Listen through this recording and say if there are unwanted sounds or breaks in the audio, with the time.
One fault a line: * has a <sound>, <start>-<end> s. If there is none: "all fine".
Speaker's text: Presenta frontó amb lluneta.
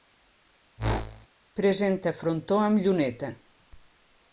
* has a whoosh, 0.8-1.3 s